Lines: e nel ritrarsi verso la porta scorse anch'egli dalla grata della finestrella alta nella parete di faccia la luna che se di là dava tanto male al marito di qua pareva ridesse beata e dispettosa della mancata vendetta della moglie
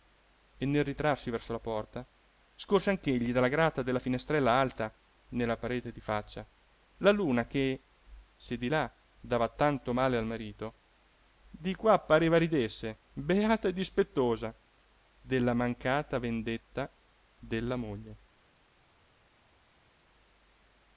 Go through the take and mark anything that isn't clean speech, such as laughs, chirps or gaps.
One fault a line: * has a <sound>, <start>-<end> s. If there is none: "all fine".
all fine